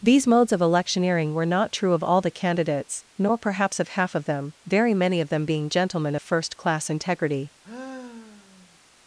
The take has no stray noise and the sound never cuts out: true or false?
false